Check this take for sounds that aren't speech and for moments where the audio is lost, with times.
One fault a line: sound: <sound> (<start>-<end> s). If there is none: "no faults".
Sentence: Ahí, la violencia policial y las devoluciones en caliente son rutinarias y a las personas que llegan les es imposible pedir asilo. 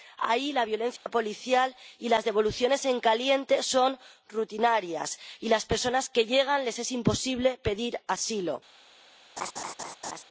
sound: dropout (1.0-1.1 s)
sound: laugh (9.4-10.2 s)